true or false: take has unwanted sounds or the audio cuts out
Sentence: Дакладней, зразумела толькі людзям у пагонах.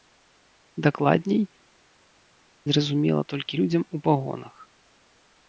false